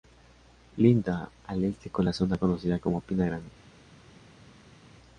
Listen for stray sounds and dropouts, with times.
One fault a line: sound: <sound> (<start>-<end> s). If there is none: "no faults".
no faults